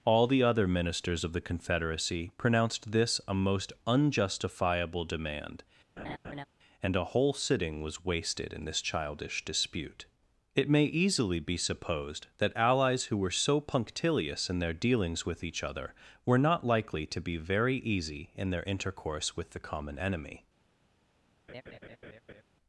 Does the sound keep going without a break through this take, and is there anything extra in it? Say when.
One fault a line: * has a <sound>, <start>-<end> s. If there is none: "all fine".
* has a laugh, 6.0-6.4 s
* has a laugh, 21.5-22.4 s